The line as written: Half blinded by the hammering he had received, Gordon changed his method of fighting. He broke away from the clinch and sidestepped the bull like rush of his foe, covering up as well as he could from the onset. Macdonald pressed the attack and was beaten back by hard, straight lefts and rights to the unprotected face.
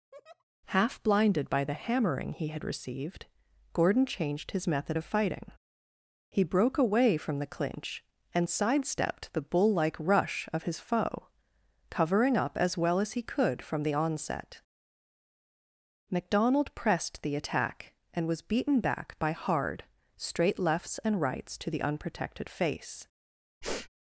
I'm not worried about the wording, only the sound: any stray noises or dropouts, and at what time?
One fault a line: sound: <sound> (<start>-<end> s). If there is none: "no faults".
sound: laugh (0.1-0.4 s)
sound: sniff (23.6-23.9 s)